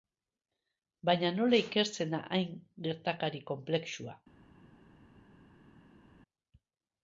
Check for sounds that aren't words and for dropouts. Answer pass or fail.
pass